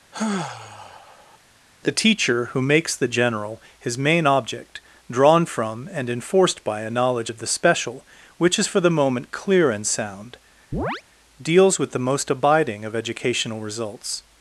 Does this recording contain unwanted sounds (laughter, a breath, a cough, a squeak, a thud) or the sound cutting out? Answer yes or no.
yes